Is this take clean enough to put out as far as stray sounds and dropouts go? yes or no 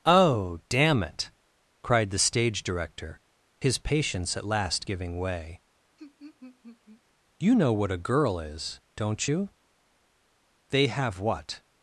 no